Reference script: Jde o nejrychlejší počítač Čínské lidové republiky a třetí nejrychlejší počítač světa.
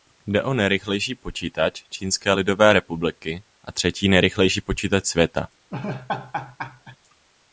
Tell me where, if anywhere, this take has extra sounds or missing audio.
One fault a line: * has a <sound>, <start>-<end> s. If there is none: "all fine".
* has a laugh, 5.7-7.0 s